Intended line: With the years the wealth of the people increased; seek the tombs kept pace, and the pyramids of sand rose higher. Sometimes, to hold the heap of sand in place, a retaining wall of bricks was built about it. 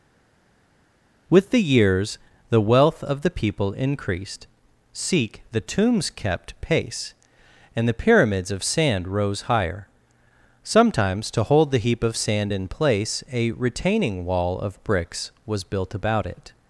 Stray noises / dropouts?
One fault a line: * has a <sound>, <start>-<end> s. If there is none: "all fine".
all fine